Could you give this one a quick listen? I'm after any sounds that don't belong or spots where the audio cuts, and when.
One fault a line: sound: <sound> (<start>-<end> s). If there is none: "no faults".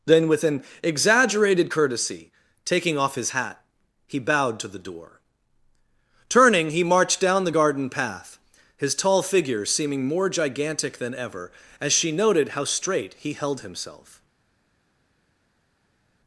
no faults